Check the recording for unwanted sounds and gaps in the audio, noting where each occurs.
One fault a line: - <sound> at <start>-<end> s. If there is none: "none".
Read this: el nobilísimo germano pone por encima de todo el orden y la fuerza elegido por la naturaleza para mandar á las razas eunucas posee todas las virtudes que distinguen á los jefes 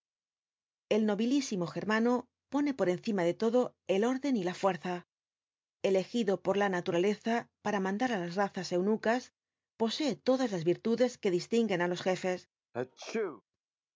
- sneeze at 12.7-13.4 s